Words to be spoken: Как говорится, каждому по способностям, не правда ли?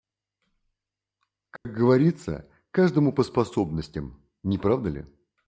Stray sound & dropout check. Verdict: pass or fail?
fail